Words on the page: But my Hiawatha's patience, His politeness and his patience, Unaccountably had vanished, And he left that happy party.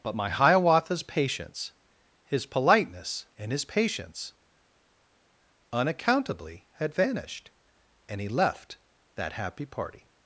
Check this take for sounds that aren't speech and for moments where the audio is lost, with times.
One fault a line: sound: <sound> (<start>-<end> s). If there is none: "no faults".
no faults